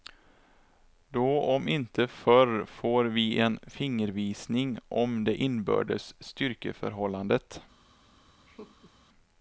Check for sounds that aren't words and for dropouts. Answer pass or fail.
fail